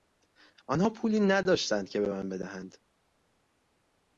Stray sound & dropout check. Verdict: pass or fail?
pass